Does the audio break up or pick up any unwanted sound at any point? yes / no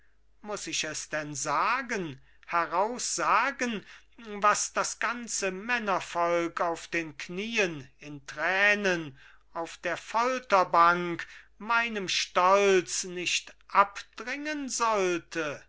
no